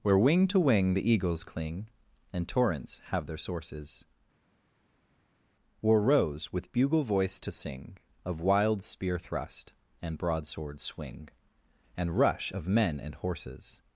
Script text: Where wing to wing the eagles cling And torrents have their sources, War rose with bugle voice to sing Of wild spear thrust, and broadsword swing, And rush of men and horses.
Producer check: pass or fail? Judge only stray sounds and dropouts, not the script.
pass